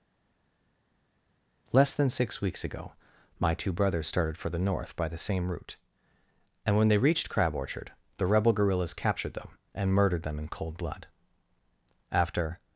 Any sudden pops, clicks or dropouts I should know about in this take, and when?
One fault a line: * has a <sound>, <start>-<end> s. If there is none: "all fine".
all fine